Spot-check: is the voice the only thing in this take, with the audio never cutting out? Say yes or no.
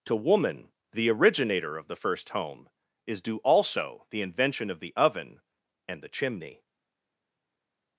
yes